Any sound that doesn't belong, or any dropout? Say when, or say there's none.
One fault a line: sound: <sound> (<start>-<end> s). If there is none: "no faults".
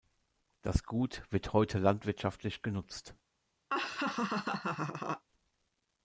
sound: laugh (3.7-5.2 s)